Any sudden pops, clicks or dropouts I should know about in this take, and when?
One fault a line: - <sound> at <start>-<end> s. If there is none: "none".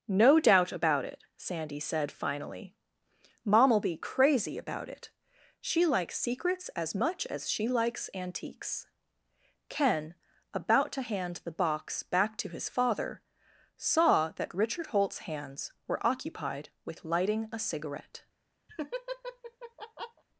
- laugh at 18.7-20.2 s